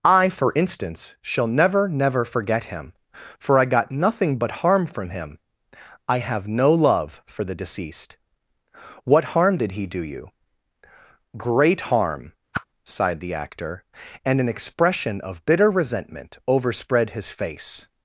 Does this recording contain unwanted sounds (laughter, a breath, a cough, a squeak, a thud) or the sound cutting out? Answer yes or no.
yes